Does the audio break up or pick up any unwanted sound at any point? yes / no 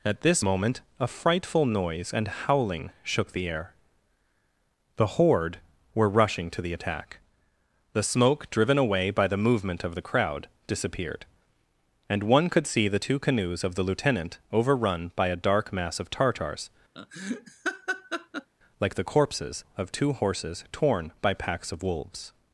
yes